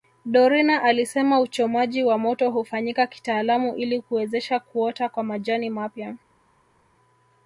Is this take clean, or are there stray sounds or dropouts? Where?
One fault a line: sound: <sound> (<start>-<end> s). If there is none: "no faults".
no faults